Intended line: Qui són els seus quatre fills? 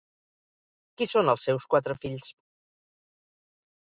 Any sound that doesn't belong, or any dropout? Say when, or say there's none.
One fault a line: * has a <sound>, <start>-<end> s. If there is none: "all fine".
all fine